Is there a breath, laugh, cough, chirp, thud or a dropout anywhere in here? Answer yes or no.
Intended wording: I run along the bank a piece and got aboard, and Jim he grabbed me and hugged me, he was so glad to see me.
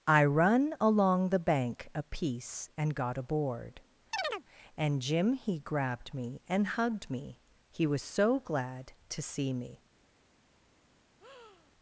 yes